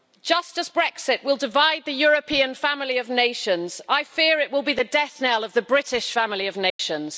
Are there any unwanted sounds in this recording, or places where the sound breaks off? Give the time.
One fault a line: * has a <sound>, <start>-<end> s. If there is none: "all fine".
* has a dropout, 6.7-6.8 s